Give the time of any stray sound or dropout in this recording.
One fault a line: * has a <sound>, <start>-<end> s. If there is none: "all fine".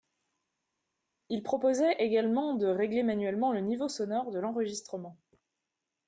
all fine